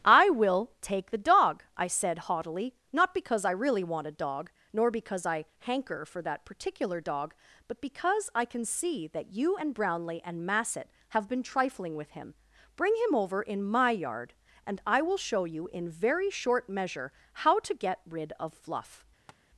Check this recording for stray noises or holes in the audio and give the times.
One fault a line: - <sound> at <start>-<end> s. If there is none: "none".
- tap at 19.3-19.4 s